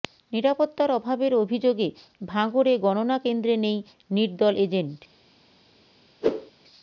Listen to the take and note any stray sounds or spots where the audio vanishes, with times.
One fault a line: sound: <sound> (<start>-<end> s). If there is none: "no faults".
sound: whoosh (6.2-6.5 s)